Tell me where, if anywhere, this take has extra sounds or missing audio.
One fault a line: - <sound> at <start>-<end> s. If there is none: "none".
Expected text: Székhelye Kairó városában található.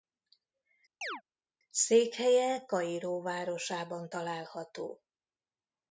- chirp at 1.0-1.2 s